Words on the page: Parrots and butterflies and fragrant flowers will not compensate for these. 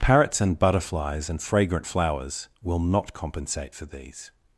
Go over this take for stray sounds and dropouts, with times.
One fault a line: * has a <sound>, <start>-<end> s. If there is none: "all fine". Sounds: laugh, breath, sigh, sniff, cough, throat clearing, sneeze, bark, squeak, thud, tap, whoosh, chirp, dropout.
all fine